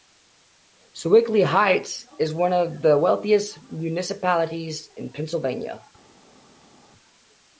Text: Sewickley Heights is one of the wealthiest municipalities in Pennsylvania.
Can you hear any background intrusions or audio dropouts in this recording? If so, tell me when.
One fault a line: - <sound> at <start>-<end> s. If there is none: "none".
none